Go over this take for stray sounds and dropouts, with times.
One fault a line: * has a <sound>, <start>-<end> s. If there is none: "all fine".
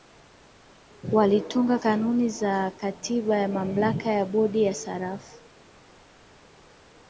all fine